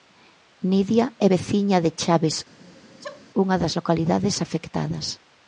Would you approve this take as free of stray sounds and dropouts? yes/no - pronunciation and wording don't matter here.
no